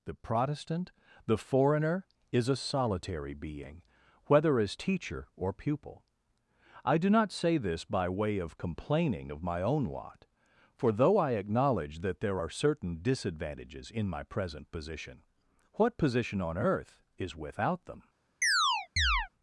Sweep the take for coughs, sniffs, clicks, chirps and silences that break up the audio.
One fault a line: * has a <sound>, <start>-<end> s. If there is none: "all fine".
* has a chirp, 18.4-19.3 s